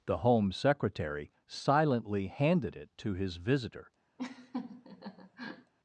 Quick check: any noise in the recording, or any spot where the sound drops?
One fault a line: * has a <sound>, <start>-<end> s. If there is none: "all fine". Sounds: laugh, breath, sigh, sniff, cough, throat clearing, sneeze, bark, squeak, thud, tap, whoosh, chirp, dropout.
* has a laugh, 4.2-5.7 s